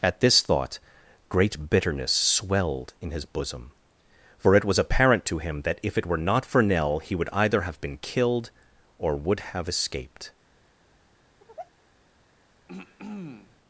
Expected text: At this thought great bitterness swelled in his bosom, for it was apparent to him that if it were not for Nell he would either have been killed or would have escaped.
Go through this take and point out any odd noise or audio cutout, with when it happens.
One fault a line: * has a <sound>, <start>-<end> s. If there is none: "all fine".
* has a sigh, 11.4-11.7 s
* has a throat clearing, 12.7-13.6 s